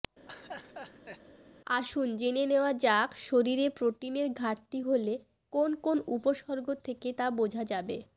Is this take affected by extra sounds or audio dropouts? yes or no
yes